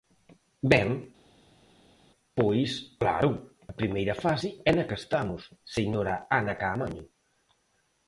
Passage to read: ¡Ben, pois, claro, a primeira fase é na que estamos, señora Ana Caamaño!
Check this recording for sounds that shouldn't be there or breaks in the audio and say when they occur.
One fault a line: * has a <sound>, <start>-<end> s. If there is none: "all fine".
all fine